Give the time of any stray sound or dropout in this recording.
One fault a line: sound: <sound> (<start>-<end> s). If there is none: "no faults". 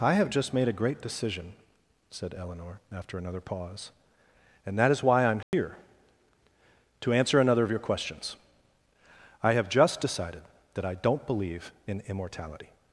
sound: dropout (5.4-5.5 s)